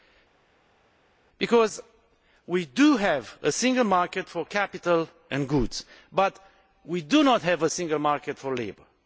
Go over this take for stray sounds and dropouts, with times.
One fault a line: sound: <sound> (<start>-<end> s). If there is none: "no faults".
no faults